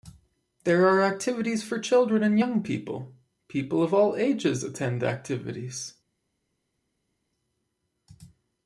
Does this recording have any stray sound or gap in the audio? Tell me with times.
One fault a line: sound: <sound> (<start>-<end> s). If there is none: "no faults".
no faults